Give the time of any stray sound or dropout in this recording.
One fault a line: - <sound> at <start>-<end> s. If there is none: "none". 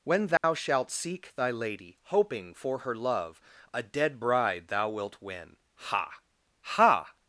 - dropout at 0.4-0.4 s